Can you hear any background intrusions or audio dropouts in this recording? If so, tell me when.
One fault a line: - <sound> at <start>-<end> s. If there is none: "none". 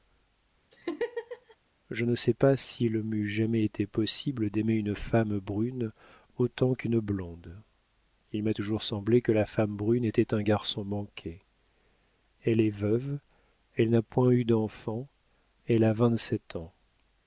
- laugh at 0.7-1.6 s